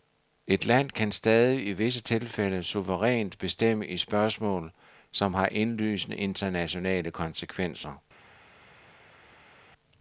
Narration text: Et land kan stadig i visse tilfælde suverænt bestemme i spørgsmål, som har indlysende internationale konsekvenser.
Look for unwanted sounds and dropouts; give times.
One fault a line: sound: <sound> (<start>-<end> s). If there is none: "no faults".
no faults